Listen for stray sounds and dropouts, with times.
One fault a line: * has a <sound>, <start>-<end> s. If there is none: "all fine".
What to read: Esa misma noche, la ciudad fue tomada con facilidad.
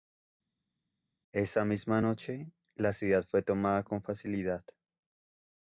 all fine